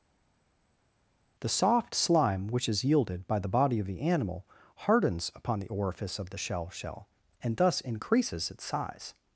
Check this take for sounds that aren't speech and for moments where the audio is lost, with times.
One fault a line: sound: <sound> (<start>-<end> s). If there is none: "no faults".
no faults